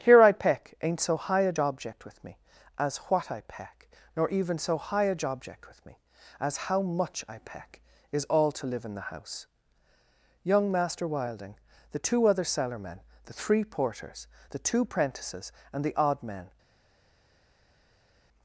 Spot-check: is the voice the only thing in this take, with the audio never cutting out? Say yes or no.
yes